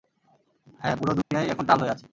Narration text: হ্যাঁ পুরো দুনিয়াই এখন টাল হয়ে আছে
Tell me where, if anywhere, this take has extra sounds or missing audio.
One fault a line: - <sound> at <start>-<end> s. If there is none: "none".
- dropout at 1.2-1.3 s